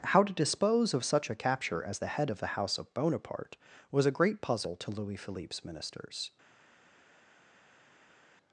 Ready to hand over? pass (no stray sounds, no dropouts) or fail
pass